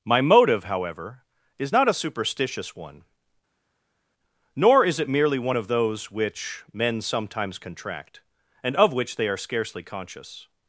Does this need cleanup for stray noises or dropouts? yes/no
no